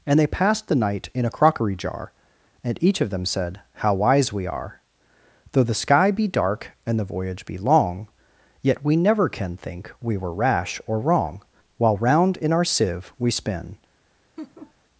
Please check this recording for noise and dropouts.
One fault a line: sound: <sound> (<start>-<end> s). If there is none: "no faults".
sound: laugh (14.4-14.7 s)